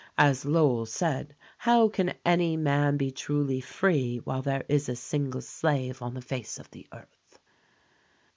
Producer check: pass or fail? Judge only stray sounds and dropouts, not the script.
pass